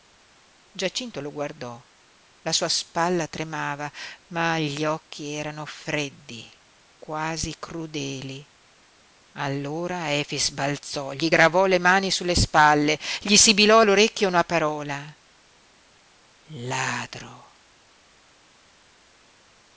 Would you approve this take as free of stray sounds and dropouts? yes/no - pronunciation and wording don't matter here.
yes